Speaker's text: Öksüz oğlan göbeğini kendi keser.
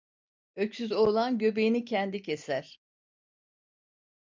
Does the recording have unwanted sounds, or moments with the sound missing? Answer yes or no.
no